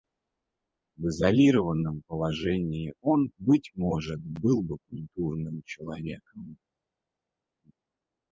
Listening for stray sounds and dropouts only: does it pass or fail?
pass